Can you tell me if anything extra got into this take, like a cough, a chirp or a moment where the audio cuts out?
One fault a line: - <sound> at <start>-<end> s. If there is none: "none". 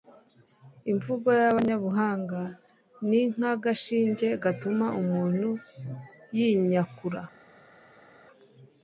none